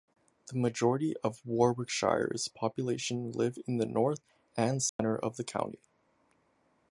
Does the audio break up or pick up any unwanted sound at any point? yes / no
yes